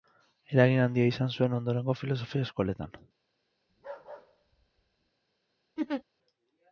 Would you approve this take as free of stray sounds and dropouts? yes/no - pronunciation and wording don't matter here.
no